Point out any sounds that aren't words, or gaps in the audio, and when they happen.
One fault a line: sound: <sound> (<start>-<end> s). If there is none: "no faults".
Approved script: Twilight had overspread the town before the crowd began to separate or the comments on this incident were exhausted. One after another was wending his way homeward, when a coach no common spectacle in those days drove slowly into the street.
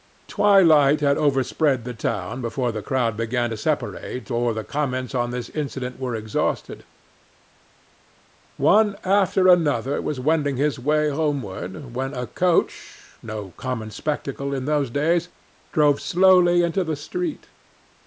no faults